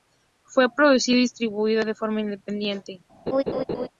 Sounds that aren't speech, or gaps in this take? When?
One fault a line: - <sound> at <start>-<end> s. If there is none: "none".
- laugh at 3.3-3.9 s